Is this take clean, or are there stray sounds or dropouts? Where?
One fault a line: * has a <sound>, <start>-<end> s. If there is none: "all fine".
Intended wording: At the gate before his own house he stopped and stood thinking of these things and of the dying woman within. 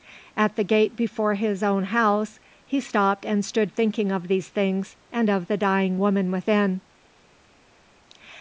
all fine